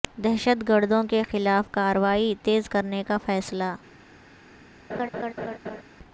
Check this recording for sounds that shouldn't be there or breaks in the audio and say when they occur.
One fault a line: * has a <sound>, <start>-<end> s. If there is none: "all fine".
* has a laugh, 4.9-5.8 s